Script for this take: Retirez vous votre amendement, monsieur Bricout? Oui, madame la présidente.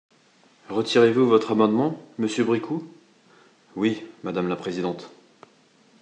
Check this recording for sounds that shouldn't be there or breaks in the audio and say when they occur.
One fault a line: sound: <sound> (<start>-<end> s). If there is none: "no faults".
no faults